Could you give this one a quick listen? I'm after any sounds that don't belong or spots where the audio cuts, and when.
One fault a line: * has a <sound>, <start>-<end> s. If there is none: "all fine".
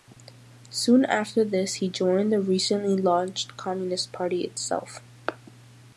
all fine